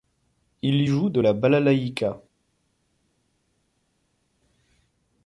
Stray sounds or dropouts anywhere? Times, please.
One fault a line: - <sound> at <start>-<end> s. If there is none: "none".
none